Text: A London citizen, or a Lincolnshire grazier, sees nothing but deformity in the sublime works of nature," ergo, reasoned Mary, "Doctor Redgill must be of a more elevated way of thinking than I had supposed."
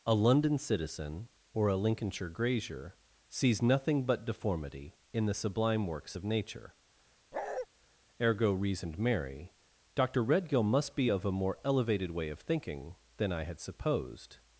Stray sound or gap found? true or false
true